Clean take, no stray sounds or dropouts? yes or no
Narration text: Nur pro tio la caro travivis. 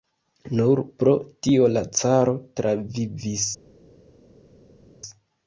yes